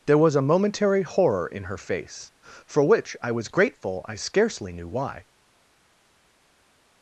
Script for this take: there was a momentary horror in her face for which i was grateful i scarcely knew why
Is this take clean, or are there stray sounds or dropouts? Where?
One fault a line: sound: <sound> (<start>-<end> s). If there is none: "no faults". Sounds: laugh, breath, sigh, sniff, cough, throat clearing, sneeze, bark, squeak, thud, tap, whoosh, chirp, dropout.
no faults